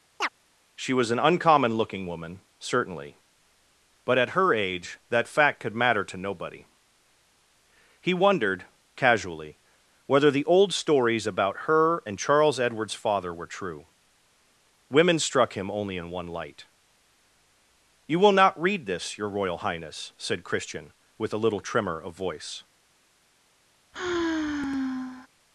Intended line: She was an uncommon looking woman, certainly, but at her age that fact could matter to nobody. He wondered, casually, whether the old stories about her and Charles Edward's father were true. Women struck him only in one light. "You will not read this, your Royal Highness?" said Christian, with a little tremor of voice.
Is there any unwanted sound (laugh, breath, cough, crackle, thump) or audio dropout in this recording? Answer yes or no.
yes